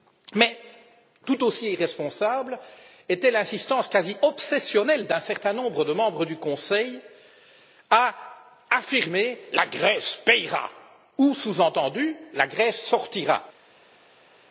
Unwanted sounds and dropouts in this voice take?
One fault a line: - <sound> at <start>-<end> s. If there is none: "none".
none